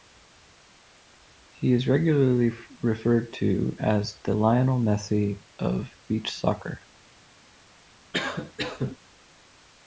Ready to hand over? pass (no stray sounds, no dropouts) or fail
fail